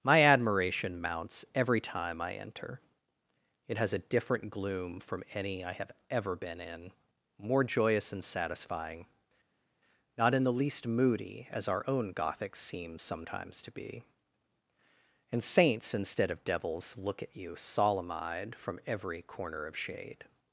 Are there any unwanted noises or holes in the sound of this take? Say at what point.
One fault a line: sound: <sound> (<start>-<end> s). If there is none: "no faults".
no faults